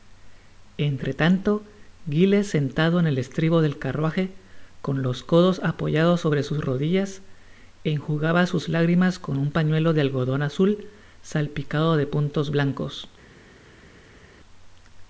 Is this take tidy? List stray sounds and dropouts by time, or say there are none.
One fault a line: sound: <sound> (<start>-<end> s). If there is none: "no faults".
no faults